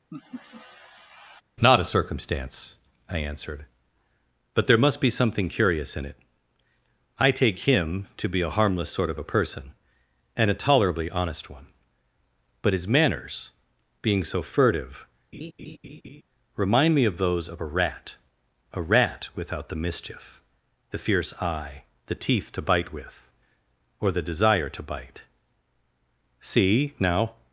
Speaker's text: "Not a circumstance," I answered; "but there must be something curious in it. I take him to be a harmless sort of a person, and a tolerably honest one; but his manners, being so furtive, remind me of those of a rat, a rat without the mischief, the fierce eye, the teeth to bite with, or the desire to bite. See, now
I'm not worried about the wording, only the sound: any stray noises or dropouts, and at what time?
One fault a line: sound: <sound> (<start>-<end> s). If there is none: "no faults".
sound: laugh (0.1-1.4 s)
sound: laugh (15.3-16.2 s)